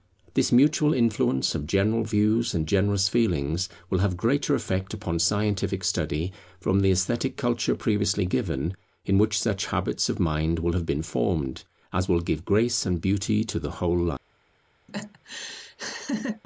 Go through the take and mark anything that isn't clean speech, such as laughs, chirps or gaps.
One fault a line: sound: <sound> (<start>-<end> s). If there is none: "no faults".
sound: laugh (14.9-16.4 s)